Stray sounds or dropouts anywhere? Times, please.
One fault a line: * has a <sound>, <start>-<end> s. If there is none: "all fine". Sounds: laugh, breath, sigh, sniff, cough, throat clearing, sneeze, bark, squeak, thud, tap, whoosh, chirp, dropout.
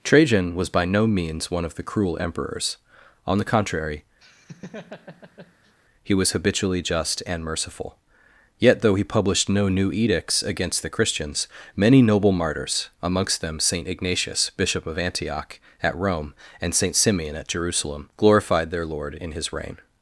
* has a laugh, 4.2-5.8 s